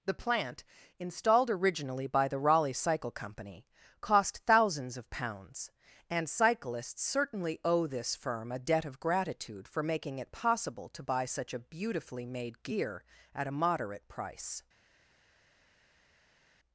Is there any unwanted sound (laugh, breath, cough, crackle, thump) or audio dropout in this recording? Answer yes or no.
no